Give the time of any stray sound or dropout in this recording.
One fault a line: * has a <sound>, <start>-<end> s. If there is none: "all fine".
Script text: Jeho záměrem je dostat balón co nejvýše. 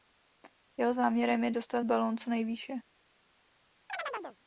* has a chirp, 3.9-4.4 s